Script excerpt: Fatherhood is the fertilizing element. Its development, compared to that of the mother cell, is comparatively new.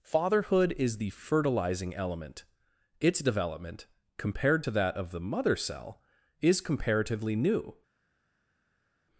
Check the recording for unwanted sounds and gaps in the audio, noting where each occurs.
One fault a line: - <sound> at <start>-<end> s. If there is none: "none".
none